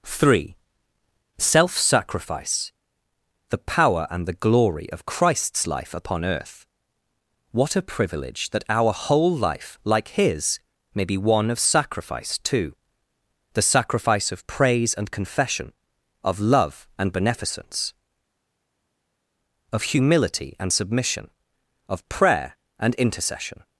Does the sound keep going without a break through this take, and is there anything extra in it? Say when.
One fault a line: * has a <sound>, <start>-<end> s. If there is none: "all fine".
all fine